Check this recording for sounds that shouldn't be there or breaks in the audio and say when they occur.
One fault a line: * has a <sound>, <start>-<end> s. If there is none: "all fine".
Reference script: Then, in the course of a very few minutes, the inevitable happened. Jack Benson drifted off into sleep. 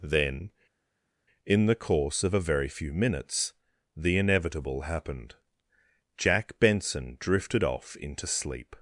all fine